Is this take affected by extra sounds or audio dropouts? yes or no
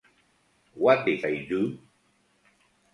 no